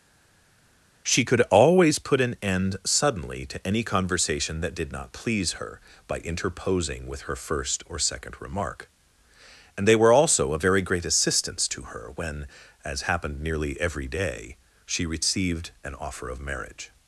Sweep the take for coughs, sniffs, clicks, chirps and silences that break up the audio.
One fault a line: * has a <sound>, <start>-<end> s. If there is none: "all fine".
all fine